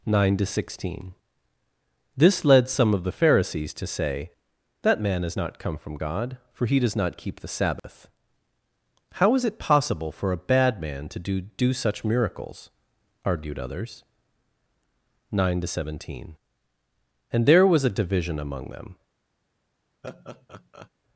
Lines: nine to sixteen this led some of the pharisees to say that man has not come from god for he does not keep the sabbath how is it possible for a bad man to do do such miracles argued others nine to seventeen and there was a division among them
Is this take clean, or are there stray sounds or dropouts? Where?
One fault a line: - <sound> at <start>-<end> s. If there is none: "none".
- dropout at 7.8-7.8 s
- laugh at 20.0-20.9 s